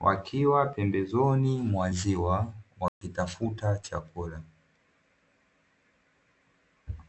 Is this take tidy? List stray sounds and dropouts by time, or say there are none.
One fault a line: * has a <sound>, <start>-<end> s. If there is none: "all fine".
* has a dropout, 2.9-3.0 s